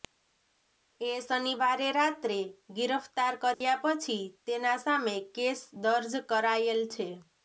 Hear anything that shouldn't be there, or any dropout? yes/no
yes